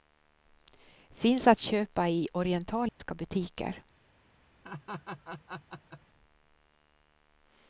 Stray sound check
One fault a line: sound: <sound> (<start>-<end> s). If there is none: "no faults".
sound: dropout (2.9-3.0 s)
sound: laugh (4.6-6.0 s)